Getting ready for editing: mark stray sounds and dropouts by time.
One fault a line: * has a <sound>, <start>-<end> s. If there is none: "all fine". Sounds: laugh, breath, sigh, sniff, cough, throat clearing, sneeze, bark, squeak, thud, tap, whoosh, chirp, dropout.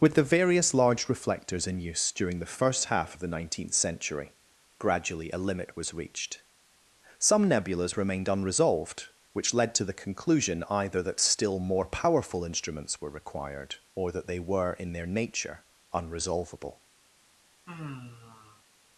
* has a sigh, 17.7-18.6 s